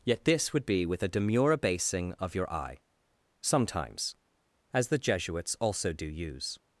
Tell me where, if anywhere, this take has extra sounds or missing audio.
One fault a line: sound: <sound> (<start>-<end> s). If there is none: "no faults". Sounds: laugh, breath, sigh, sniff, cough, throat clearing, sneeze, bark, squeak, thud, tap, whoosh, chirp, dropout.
no faults